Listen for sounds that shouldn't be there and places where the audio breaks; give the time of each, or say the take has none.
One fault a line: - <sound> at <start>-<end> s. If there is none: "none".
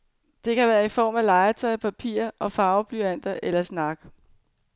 none